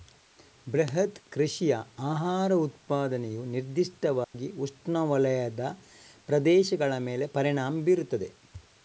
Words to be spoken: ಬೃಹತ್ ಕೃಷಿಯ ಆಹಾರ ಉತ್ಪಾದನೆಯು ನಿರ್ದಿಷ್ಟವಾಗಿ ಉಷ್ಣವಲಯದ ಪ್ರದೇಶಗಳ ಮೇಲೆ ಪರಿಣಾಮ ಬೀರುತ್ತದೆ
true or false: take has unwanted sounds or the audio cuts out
true